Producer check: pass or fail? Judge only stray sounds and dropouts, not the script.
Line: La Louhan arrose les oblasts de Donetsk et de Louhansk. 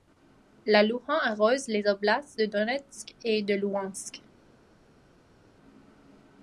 pass